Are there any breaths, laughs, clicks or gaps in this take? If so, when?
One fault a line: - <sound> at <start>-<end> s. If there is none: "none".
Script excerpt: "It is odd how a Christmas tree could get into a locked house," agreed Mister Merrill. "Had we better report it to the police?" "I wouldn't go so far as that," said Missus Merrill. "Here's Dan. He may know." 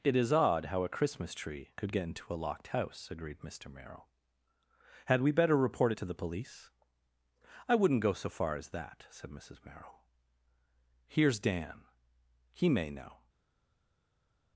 none